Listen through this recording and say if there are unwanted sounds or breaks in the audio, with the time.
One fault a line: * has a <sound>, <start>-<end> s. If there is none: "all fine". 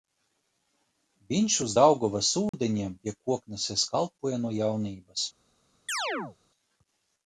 * has a dropout, 2.5-2.5 s
* has a chirp, 5.9-6.4 s